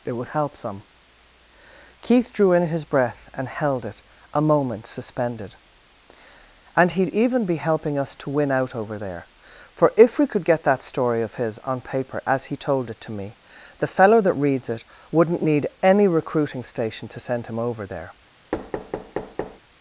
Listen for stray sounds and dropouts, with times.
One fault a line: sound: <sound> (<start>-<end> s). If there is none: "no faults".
sound: thud (18.5-19.6 s)